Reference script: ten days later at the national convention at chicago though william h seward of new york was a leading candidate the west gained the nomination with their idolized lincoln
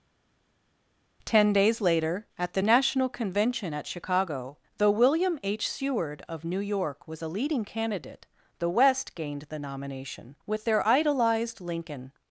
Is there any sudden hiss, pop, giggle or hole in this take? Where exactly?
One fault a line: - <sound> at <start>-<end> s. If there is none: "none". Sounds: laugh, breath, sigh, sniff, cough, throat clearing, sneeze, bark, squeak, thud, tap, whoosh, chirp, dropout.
none